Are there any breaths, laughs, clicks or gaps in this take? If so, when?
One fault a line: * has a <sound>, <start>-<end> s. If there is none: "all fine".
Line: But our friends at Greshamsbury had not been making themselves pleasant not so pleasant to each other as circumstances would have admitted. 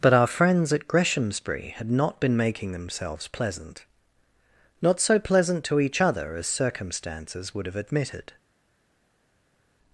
all fine